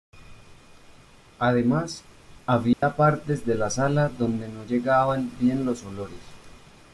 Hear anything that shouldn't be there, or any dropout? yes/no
yes